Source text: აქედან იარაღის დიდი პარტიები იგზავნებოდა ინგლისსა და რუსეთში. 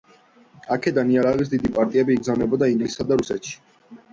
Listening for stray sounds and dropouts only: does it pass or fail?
pass